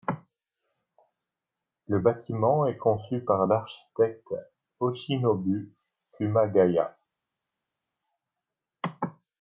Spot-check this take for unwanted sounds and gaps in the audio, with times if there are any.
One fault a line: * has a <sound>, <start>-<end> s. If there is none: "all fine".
all fine